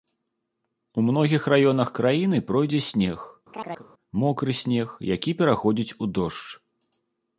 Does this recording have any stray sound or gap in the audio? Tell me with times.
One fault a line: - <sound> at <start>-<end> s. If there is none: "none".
- chirp at 3.5-3.9 s